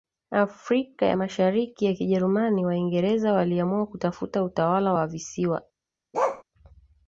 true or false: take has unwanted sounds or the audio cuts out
true